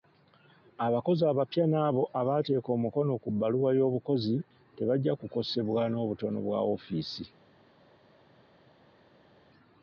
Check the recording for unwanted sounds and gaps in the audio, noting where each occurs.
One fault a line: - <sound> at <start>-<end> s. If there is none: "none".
none